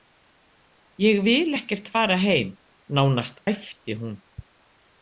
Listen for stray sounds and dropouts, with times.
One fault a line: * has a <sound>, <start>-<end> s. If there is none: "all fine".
all fine